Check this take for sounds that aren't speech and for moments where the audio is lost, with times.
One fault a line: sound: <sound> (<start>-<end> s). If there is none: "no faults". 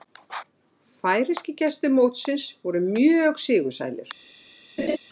sound: laugh (4.8-5.0 s)